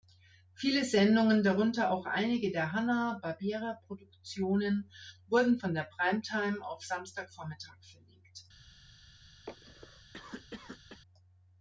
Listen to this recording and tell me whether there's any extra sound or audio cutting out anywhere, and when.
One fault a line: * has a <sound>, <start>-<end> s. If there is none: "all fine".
* has a cough, 9.5-11.0 s